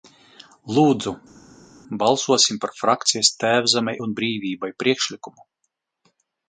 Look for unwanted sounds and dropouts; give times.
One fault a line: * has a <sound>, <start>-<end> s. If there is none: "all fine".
all fine